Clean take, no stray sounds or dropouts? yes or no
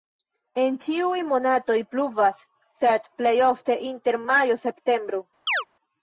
no